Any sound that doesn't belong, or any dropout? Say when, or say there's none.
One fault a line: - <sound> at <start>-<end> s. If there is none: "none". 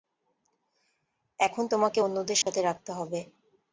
- dropout at 2.4-2.5 s